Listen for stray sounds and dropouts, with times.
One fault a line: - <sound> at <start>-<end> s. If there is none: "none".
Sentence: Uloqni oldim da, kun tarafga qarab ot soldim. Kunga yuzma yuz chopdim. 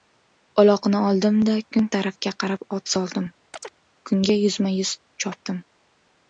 - chirp at 3.5-3.8 s